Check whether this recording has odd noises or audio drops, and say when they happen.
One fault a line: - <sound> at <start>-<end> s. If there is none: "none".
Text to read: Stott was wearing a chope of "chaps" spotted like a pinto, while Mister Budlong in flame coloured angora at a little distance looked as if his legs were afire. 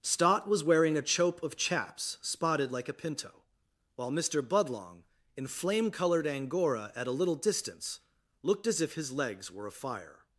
none